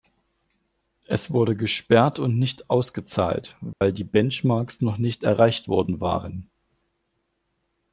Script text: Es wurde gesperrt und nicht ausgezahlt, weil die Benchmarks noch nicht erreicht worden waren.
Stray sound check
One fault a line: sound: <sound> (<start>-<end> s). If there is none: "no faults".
sound: dropout (3.7-3.8 s)